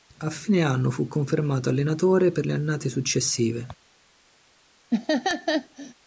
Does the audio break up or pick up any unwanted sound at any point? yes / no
yes